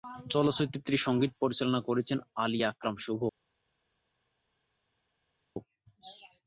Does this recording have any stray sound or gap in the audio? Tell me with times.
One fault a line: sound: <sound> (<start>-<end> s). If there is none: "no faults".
no faults